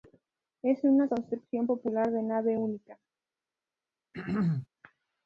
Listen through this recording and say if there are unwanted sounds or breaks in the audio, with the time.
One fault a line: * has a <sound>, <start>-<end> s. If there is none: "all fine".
* has a throat clearing, 4.1-4.7 s